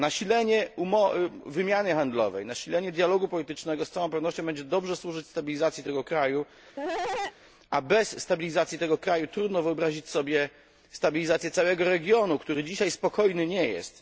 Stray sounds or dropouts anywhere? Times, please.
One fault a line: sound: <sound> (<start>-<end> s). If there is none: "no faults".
sound: cough (6.8-7.4 s)